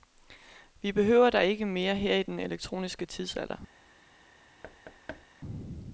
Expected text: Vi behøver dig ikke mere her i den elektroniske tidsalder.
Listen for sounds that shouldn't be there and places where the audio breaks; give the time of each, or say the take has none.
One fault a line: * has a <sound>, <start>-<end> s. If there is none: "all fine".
* has a thud, 4.6-5.3 s